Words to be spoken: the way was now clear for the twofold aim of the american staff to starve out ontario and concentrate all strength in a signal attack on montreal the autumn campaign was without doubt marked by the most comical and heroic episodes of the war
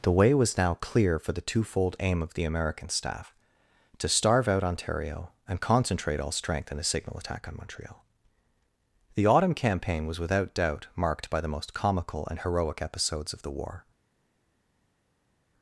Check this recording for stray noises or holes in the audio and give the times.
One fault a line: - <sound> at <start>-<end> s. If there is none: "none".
none